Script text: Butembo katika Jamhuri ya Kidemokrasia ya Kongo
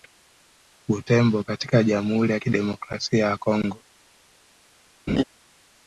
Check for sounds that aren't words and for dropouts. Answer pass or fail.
fail